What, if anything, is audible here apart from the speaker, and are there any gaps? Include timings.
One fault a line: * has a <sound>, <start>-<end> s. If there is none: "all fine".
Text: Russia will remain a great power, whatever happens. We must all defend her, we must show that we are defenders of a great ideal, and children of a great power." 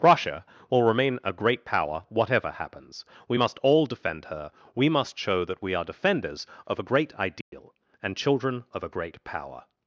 * has a dropout, 7.4-7.5 s